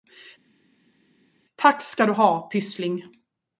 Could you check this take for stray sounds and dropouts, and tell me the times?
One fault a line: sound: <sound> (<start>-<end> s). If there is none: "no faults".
no faults